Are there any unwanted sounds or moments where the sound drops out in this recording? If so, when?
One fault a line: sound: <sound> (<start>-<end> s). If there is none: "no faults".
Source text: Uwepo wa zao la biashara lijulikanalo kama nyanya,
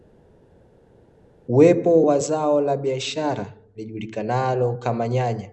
no faults